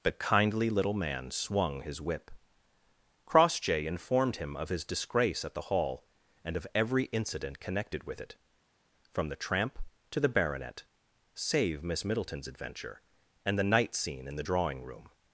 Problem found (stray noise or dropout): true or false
false